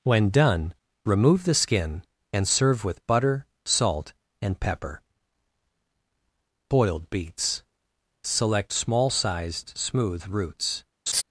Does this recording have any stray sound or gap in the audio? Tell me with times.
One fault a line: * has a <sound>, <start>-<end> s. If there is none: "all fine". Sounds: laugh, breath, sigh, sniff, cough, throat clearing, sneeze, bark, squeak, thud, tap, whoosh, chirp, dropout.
* has a laugh, 11.1-11.2 s